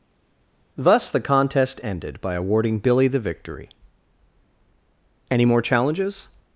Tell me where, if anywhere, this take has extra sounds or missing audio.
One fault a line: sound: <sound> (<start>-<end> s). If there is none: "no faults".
no faults